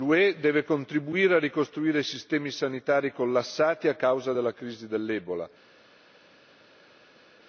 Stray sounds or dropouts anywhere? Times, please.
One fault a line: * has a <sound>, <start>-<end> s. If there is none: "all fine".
all fine